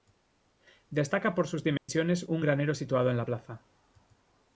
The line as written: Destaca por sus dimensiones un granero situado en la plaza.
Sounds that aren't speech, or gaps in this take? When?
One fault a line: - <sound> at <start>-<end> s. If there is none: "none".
- dropout at 1.8-1.9 s